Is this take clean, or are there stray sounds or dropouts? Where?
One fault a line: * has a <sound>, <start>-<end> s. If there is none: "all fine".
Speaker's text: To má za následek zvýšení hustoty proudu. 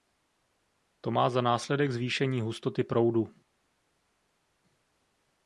all fine